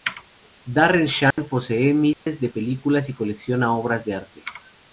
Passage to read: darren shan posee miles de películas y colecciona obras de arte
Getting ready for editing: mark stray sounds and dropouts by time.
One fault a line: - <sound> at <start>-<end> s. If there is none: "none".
- dropout at 1.3-1.4 s
- dropout at 2.1-2.3 s